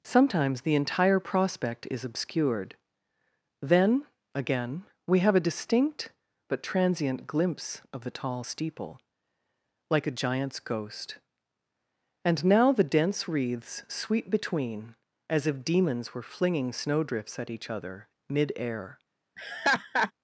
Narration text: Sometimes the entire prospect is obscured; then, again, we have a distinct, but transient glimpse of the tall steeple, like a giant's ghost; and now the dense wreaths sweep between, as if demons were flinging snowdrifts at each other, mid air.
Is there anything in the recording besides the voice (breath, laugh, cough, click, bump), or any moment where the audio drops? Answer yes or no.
yes